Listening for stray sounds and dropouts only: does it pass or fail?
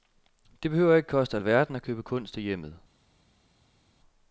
pass